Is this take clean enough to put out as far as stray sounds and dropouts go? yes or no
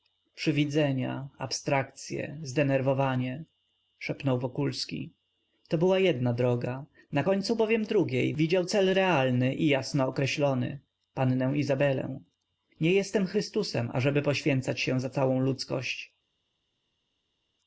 yes